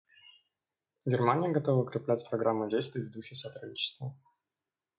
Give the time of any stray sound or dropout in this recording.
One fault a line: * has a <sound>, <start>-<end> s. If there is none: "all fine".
all fine